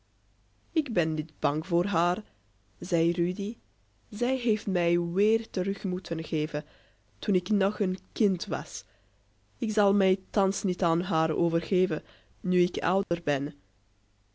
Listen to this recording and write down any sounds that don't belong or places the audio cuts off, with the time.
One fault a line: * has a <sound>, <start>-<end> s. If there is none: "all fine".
* has a dropout, 13.0-13.1 s